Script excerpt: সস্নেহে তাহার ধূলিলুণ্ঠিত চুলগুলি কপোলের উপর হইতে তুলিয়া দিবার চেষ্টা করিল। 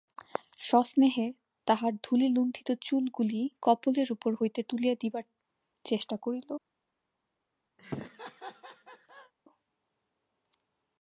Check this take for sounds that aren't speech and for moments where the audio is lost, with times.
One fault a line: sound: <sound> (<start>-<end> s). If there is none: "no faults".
sound: laugh (7.8-9.3 s)